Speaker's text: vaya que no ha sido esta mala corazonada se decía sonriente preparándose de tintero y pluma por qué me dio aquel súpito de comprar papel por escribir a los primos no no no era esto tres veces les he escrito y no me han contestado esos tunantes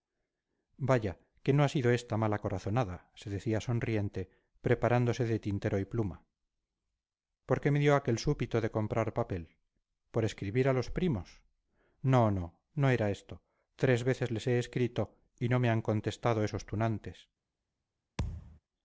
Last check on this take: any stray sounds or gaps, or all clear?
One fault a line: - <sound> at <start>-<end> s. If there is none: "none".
- thud at 18.2-18.6 s